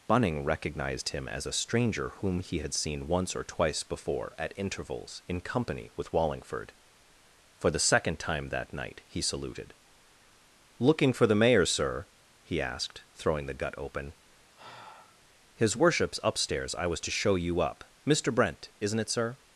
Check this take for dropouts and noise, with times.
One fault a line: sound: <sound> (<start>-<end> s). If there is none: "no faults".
sound: sigh (14.5-15.2 s)